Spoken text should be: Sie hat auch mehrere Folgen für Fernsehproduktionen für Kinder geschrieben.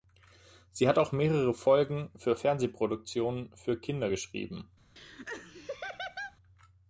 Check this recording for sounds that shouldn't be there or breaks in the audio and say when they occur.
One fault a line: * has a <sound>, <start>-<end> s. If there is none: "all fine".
* has a laugh, 5.0-6.4 s